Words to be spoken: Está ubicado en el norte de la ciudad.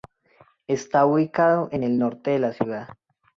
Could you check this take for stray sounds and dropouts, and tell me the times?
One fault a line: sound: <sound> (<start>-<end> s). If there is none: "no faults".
no faults